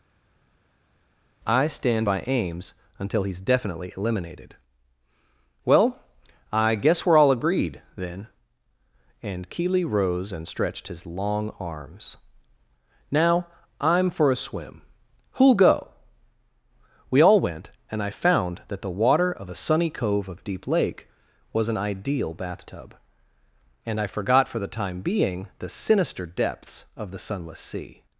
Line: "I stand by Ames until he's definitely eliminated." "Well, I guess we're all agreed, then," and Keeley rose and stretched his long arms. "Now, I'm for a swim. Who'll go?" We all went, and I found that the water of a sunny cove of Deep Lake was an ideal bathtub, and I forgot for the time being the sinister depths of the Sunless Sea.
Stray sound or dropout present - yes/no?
no